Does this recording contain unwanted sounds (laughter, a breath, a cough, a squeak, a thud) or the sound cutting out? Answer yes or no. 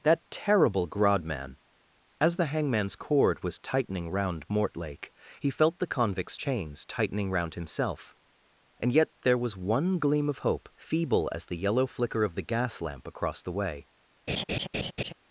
yes